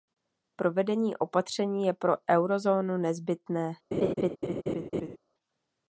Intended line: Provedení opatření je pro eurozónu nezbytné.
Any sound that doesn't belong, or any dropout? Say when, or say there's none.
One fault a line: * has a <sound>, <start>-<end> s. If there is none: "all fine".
* has a laugh, 3.9-5.2 s